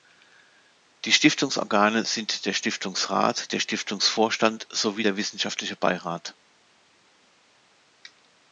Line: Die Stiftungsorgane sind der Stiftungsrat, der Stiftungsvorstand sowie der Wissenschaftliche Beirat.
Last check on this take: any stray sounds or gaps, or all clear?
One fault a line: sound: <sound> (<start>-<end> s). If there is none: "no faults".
no faults